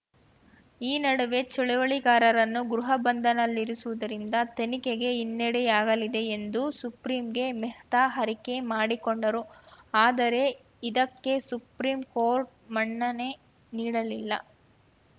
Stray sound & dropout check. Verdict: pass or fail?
pass